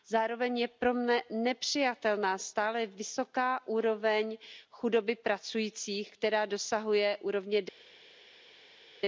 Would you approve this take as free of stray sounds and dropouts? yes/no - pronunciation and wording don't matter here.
yes